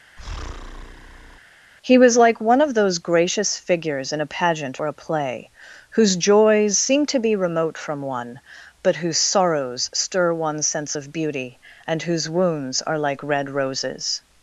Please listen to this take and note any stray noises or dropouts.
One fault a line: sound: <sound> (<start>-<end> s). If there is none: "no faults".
sound: breath (0.2-1.4 s)